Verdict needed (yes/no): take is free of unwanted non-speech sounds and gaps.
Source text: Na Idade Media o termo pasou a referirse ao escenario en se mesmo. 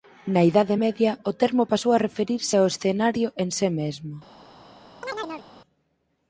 no